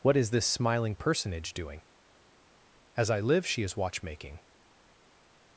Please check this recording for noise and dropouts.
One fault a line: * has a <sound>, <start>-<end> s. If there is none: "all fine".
all fine